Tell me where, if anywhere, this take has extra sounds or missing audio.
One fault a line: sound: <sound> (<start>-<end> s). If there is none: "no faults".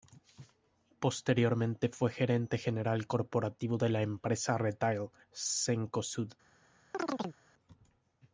sound: chirp (6.9-7.4 s)